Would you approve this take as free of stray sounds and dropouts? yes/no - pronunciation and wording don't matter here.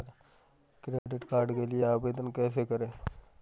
no